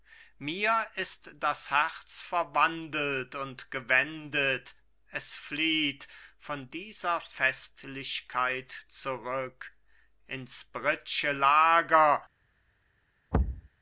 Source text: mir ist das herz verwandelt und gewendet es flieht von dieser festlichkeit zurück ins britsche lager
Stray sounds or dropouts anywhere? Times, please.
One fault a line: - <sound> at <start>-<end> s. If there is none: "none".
- thud at 13.3-13.7 s